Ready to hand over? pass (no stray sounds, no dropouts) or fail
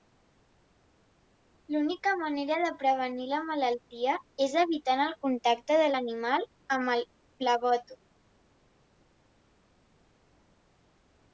pass